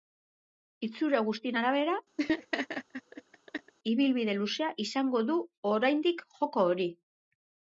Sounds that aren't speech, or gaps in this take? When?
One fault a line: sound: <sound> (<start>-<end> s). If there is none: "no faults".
sound: laugh (2.2-3.7 s)